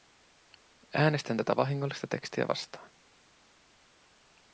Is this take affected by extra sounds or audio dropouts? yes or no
no